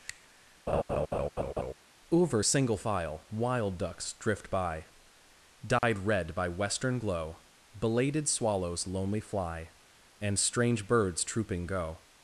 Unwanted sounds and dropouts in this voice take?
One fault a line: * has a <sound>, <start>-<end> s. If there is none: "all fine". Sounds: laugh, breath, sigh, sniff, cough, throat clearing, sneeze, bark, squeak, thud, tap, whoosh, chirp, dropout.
* has a laugh, 0.7-1.7 s
* has a dropout, 5.8-5.8 s